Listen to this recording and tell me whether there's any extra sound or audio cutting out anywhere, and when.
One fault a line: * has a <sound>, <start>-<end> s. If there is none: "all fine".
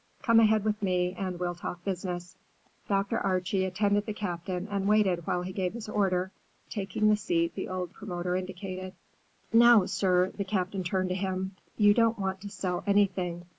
all fine